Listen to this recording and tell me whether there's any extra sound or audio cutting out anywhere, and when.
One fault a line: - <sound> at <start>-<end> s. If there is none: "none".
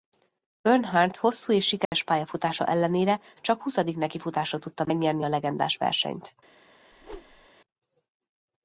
- dropout at 1.8-1.9 s
- whoosh at 6.9-7.5 s